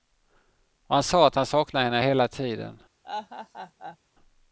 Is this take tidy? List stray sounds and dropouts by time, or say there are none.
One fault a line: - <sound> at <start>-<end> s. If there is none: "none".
- laugh at 3.0-4.0 s